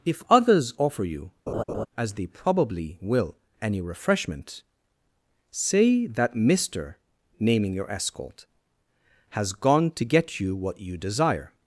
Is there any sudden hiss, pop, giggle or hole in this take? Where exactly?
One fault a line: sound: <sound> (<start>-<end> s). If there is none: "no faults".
sound: laugh (1.5-1.9 s)